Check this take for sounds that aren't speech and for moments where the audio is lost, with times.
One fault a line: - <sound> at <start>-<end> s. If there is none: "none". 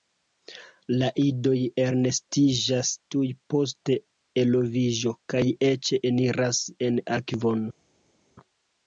none